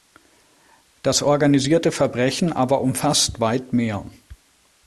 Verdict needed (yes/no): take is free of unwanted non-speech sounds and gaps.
yes